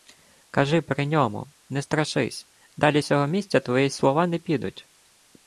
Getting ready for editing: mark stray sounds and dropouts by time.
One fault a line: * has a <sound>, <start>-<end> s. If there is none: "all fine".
all fine